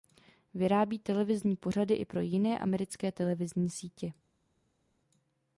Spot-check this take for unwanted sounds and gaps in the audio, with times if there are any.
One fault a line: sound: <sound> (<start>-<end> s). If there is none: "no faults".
no faults